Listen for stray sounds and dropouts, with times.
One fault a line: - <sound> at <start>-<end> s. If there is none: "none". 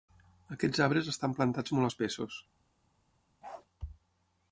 - bark at 3.4-3.7 s